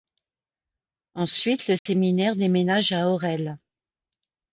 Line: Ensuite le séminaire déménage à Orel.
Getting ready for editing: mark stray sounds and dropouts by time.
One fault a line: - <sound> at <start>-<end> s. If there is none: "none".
- dropout at 1.8-1.9 s